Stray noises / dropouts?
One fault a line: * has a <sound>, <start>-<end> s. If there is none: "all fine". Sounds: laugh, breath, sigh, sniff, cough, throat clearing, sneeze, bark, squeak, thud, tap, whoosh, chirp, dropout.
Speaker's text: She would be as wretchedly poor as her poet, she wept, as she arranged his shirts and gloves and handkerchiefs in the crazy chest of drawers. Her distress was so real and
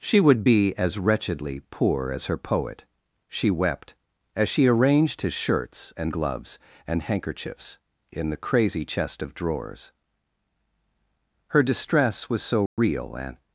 * has a dropout, 12.7-12.8 s